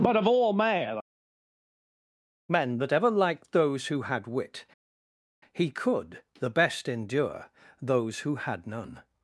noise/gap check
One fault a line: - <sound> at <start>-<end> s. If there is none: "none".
none